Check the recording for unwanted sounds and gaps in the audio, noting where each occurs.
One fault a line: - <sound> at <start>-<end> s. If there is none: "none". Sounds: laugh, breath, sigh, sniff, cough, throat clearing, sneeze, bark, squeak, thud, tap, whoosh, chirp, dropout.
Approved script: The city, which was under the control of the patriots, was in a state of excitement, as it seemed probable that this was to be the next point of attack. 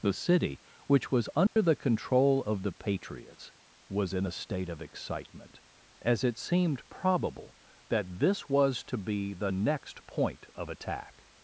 - dropout at 1.5-1.6 s